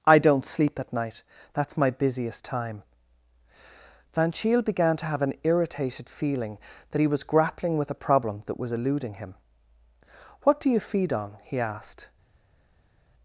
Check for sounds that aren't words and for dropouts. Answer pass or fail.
pass